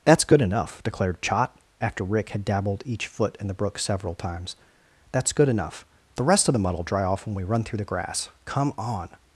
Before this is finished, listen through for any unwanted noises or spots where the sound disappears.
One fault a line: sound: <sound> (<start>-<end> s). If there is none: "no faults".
no faults